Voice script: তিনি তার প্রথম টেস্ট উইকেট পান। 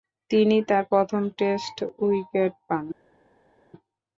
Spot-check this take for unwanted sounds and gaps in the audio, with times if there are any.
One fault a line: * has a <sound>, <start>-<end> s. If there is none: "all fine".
all fine